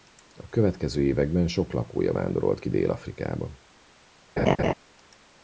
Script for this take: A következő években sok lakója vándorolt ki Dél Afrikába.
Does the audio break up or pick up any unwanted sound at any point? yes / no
yes